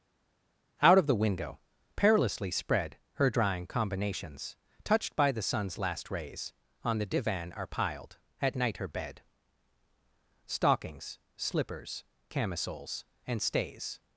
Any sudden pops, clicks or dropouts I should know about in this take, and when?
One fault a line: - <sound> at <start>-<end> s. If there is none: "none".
none